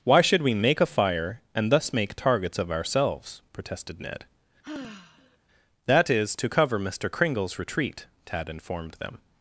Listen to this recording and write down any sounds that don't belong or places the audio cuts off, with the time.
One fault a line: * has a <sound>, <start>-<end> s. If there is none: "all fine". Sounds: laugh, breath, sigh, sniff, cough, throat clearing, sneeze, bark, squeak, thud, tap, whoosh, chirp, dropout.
* has a sigh, 4.6-5.4 s